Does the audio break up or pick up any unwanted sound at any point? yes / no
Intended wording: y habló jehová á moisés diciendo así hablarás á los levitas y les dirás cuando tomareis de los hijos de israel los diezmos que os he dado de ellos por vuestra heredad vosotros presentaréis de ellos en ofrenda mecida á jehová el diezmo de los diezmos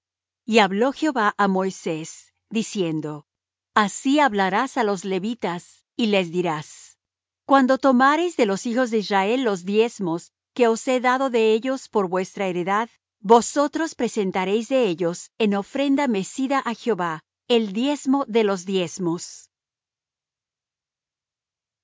no